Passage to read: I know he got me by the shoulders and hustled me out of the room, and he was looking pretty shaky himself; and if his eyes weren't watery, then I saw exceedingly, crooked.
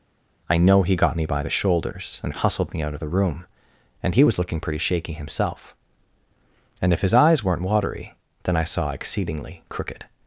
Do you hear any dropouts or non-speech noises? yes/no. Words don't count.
no